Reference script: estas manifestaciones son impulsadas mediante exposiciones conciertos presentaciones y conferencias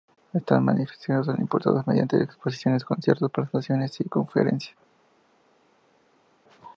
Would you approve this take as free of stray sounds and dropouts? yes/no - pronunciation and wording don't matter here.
yes